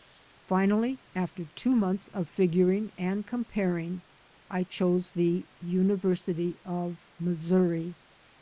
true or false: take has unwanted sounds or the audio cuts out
false